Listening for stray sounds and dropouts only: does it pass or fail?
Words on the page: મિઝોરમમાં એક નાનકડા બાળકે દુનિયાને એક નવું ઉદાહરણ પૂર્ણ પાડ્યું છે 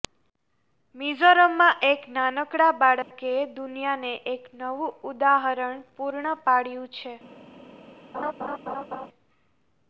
fail